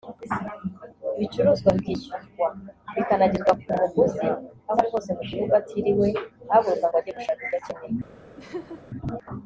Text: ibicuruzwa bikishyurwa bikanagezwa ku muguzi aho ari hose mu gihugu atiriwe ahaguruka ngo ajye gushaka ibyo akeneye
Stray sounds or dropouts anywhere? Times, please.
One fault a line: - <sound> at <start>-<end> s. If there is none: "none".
- laugh at 8.4-8.8 s